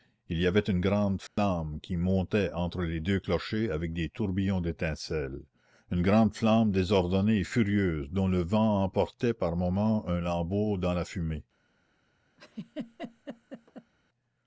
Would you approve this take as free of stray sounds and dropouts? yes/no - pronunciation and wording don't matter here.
no